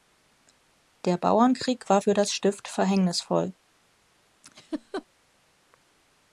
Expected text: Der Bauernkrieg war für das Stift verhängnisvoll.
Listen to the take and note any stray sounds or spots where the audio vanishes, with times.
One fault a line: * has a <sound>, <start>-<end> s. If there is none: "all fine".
* has a laugh, 4.4-5.1 s